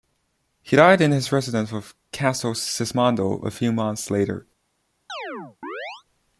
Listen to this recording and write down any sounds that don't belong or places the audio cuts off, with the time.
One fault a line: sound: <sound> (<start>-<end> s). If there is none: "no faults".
sound: chirp (5.1-6.0 s)